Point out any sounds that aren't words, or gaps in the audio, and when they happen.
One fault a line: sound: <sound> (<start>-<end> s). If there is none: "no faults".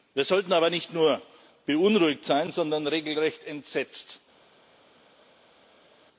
no faults